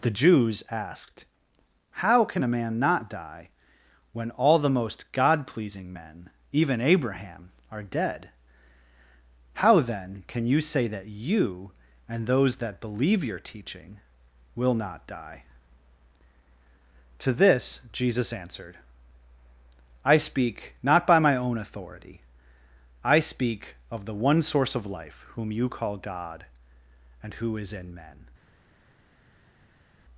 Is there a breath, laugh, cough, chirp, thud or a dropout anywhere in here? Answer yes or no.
no